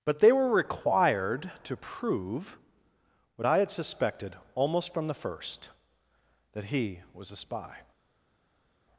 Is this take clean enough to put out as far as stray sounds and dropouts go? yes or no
yes